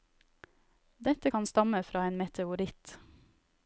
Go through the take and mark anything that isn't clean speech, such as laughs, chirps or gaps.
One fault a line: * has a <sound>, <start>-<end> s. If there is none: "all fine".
all fine